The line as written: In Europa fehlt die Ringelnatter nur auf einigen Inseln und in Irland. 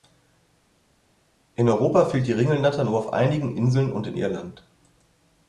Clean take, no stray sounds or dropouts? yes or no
yes